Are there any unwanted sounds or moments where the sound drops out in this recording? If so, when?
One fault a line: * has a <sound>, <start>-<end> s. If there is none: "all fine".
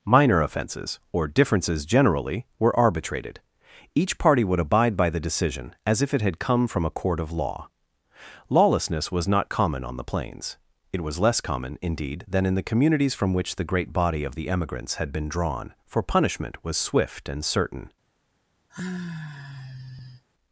* has a sigh, 18.7-20.2 s